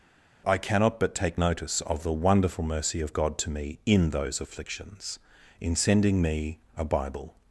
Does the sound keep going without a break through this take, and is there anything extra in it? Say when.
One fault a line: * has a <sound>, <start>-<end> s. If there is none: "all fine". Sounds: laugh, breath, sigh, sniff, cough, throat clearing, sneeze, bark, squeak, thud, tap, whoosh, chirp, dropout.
all fine